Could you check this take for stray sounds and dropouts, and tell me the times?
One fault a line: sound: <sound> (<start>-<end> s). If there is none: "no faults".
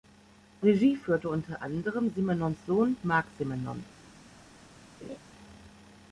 sound: laugh (5.0-5.2 s)